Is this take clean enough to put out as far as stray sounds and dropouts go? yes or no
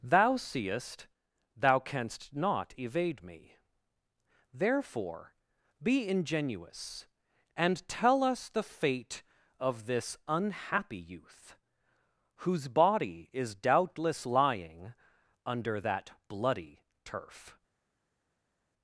yes